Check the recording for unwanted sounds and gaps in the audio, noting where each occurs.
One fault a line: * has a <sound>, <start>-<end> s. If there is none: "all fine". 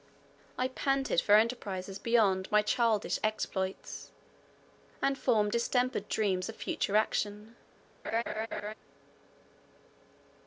* has a laugh, 8.0-8.7 s